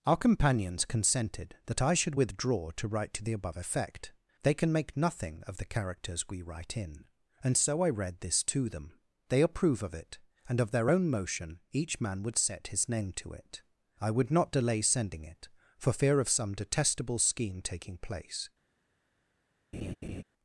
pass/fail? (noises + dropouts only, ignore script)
fail